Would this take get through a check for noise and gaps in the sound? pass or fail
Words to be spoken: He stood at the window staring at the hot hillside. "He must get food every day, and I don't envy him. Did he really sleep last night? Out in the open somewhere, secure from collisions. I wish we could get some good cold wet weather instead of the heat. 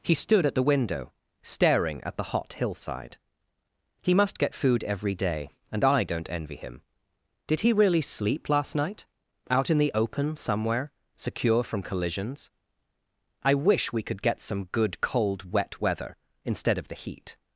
pass